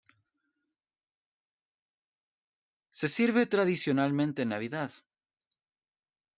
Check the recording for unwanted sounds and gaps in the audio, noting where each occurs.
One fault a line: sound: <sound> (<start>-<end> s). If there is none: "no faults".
no faults